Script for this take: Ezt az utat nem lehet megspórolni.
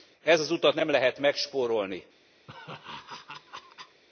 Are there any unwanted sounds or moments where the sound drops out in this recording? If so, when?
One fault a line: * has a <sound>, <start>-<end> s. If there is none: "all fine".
* has a laugh, 2.5-4.0 s